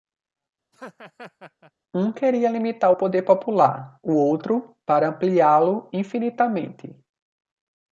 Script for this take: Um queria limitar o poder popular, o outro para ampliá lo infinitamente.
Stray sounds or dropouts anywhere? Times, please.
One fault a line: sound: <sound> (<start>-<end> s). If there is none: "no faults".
sound: laugh (0.7-1.7 s)